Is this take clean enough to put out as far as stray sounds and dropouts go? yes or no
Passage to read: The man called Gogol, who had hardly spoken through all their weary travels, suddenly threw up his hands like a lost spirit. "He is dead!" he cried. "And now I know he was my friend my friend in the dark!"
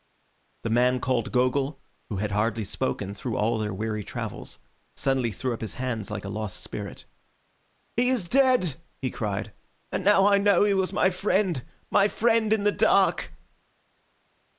yes